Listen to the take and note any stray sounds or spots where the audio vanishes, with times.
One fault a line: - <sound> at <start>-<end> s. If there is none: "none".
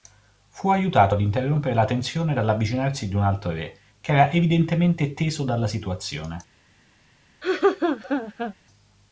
- laugh at 7.4-8.5 s